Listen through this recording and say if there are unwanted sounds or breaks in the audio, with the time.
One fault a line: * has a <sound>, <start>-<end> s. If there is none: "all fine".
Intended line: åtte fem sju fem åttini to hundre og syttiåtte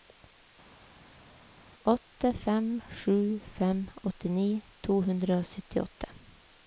all fine